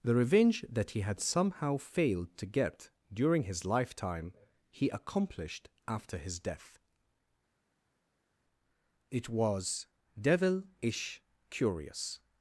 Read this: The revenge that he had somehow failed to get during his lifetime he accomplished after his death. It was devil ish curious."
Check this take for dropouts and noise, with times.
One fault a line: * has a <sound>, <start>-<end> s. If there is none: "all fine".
all fine